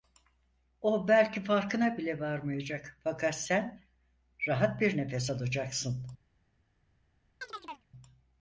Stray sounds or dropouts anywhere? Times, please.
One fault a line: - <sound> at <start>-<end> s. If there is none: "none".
- chirp at 7.4-7.9 s